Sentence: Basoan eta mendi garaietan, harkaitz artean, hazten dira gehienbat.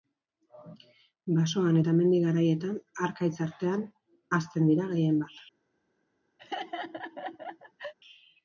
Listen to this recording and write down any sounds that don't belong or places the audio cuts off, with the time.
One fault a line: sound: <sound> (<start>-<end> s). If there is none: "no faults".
sound: laugh (6.4-7.9 s)